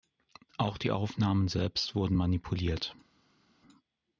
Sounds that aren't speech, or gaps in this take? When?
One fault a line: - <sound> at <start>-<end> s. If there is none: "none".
none